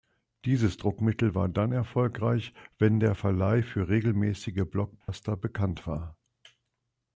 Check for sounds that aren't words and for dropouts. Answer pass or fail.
fail